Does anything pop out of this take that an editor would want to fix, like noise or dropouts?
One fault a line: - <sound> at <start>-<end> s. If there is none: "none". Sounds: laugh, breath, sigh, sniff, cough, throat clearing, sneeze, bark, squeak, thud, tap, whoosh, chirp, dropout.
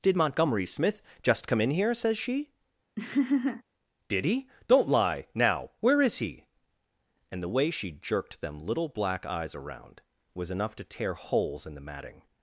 - laugh at 3.0-3.6 s